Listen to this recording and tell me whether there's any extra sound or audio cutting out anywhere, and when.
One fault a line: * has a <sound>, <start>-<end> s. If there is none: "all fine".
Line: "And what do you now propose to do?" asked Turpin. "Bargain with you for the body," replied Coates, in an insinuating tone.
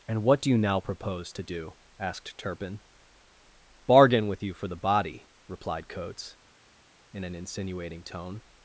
all fine